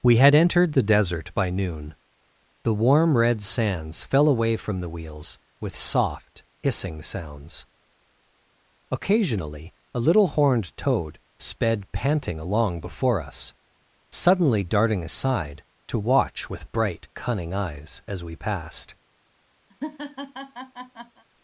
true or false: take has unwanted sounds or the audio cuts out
true